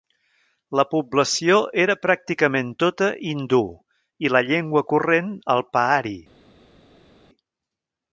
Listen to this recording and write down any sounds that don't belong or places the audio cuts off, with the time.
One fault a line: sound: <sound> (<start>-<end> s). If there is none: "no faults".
no faults